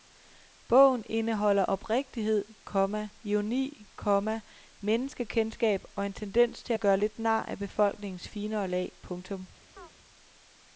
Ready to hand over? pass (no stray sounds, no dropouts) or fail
fail